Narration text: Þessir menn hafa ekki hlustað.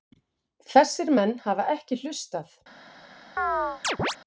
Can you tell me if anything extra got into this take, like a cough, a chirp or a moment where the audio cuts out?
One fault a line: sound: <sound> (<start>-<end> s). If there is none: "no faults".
sound: chirp (3.4-4.2 s)